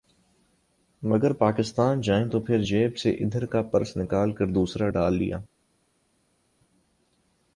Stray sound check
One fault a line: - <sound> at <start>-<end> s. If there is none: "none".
none